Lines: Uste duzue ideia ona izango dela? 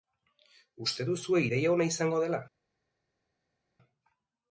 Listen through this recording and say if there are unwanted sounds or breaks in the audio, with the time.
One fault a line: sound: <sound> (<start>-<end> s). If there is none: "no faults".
no faults